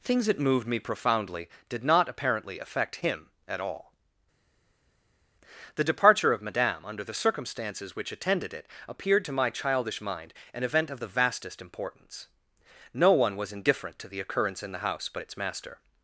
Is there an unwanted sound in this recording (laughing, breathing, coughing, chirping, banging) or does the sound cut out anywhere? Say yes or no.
no